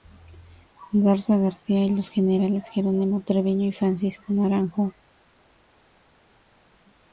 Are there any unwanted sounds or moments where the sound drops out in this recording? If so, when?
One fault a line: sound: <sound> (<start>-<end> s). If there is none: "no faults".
no faults